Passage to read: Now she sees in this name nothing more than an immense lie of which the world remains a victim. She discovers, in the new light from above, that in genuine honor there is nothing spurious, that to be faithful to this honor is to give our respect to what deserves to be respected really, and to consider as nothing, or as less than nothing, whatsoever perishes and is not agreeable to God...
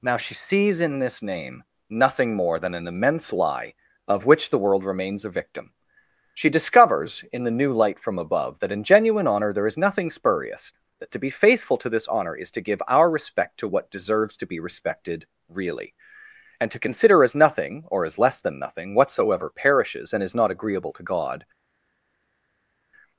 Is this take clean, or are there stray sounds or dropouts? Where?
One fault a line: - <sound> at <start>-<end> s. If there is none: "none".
none